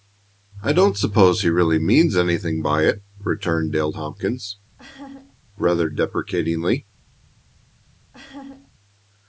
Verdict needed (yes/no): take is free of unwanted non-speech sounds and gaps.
no